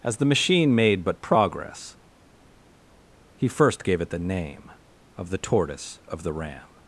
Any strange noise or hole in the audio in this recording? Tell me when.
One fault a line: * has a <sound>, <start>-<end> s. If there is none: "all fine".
all fine